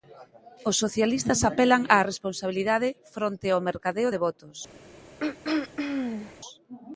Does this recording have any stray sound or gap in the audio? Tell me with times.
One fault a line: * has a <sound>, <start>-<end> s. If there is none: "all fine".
* has a throat clearing, 5.2-6.4 s